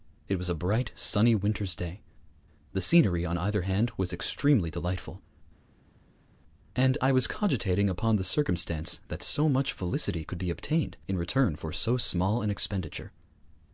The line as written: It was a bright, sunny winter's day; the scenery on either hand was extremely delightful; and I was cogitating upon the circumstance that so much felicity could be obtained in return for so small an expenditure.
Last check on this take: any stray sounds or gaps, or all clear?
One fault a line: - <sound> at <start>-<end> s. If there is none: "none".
none